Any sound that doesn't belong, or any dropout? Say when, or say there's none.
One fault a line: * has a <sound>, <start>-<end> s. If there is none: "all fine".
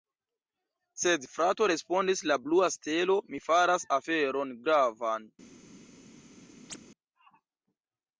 * has a chirp, 6.7-6.8 s